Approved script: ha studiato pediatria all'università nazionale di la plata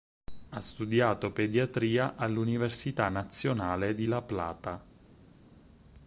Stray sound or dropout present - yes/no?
no